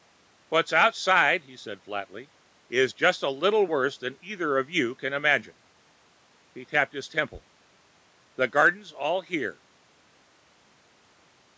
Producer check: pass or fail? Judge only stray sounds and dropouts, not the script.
pass